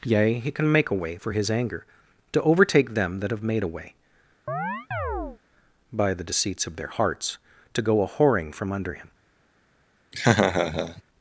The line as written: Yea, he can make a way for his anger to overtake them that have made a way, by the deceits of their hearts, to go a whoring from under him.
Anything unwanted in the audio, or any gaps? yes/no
yes